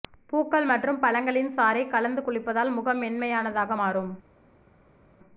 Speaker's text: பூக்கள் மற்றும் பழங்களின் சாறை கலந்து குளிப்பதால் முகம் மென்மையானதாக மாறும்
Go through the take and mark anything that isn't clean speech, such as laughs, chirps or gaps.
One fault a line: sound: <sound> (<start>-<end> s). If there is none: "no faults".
no faults